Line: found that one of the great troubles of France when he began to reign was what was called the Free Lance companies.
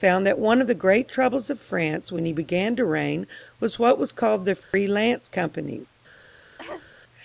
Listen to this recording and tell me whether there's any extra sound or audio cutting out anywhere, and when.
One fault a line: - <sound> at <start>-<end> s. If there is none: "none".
- dropout at 4.6-4.7 s
- cough at 6.6-6.9 s